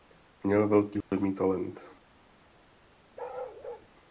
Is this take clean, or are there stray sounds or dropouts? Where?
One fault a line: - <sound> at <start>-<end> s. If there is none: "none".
- dropout at 1.0-1.1 s
- bark at 3.2-3.9 s